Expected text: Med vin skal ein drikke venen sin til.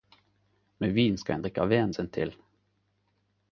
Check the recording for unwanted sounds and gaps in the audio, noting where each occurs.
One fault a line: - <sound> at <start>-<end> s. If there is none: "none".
none